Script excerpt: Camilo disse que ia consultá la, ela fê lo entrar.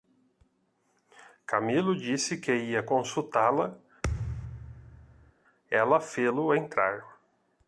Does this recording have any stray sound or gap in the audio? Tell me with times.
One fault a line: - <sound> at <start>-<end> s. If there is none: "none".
- thud at 4.0-5.3 s